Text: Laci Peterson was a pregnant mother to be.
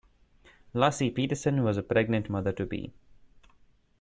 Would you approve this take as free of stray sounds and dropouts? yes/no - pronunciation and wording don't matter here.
yes